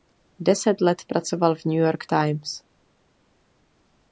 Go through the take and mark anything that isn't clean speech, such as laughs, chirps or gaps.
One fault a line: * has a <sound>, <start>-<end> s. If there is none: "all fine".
all fine